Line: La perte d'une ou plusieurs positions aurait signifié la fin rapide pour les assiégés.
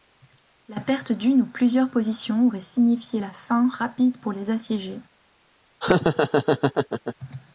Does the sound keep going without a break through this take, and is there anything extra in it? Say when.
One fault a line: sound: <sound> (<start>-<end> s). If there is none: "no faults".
sound: laugh (5.8-7.2 s)